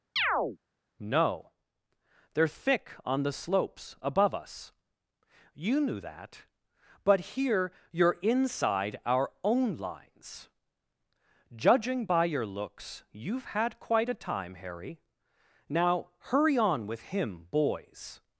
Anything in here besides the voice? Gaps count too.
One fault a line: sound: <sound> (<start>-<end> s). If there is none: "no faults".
sound: chirp (0.2-0.6 s)